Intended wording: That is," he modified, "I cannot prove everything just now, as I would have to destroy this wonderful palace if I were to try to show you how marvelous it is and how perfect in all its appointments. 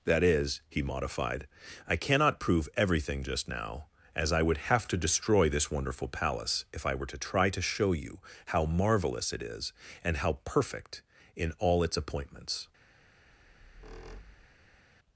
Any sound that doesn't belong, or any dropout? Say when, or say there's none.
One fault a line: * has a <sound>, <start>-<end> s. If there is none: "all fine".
* has a squeak, 13.3-14.9 s